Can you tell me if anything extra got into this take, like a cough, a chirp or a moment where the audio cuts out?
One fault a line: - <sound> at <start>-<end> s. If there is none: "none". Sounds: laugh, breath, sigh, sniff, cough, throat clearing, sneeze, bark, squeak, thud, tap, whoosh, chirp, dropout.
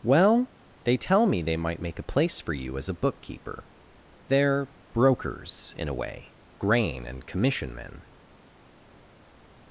none